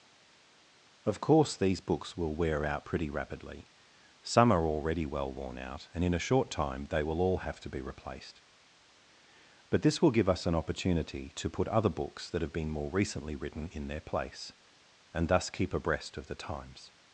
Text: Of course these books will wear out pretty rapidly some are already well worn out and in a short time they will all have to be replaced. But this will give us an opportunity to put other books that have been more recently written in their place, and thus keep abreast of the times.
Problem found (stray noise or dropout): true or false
false